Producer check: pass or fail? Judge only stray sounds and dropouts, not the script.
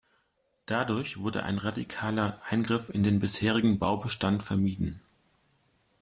pass